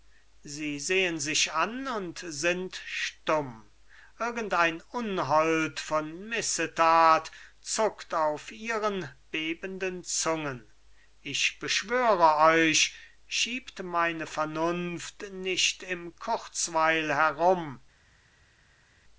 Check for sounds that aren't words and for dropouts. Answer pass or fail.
pass